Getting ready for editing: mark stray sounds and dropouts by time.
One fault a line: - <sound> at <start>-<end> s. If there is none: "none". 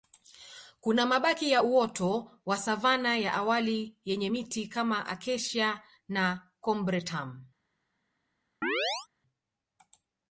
- chirp at 8.6-9.1 s